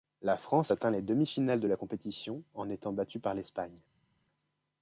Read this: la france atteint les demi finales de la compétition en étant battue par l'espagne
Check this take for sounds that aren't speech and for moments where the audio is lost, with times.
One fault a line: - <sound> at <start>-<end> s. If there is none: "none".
none